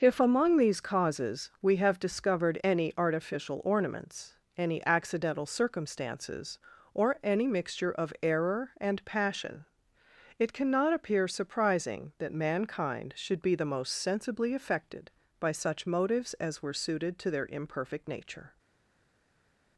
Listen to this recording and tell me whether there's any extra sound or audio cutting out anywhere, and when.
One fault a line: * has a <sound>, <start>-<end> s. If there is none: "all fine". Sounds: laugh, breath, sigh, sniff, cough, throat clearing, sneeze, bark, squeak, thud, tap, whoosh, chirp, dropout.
all fine